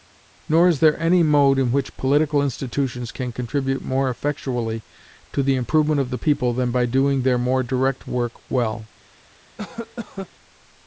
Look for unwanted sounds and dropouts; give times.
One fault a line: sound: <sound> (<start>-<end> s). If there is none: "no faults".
sound: cough (9.6-10.3 s)